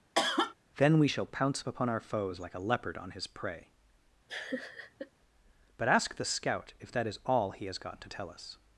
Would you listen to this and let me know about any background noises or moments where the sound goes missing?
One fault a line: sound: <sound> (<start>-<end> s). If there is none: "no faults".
sound: cough (0.1-0.5 s)
sound: laugh (4.3-5.1 s)